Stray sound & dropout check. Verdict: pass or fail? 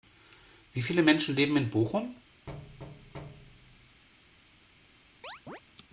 fail